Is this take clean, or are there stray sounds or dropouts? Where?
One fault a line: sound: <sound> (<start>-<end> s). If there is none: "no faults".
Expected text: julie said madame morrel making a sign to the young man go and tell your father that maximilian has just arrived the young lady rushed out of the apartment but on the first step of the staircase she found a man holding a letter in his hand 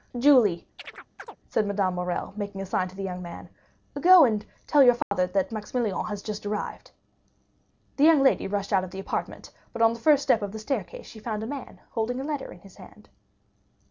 sound: chirp (0.8-1.4 s)
sound: dropout (5.0-5.1 s)